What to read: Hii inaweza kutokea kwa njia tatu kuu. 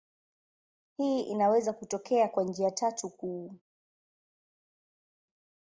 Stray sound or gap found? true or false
false